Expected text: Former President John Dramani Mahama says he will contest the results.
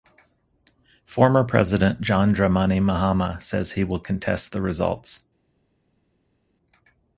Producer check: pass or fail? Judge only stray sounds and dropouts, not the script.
pass